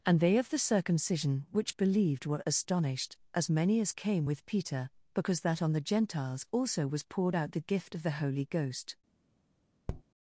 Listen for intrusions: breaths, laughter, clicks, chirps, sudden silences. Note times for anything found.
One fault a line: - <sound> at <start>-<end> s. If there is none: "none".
- tap at 9.9-10.0 s